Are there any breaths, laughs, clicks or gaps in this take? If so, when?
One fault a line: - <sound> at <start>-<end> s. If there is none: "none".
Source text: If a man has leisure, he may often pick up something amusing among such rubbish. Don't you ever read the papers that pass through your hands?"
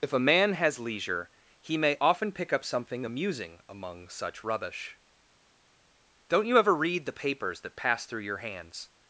none